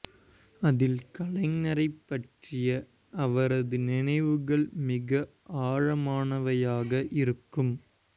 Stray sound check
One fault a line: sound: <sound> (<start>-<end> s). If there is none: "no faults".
no faults